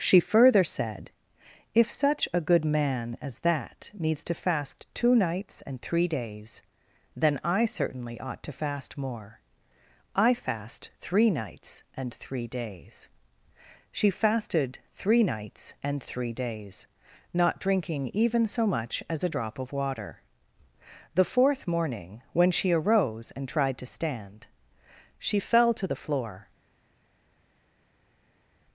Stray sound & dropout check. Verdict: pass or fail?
pass